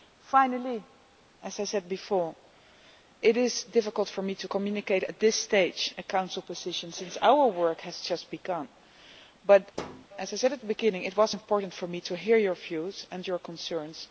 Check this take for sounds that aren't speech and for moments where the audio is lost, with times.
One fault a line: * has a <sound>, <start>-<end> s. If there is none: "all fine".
* has a thud, 9.7-10.1 s